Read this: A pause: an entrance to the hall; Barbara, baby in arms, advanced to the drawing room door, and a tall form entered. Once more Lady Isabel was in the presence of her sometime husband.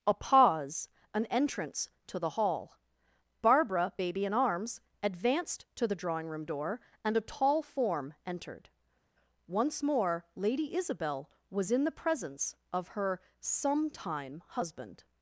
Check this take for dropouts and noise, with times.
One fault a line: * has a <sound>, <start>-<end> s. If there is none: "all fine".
all fine